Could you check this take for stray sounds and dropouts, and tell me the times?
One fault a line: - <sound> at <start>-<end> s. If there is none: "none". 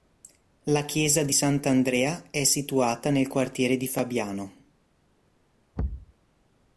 - thud at 5.8-6.1 s